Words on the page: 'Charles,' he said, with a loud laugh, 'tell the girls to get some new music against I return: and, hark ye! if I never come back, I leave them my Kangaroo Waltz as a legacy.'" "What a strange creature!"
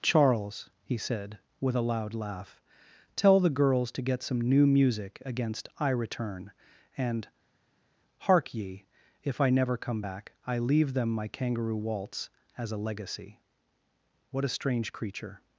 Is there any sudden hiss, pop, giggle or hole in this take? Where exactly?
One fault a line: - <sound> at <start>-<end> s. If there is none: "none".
none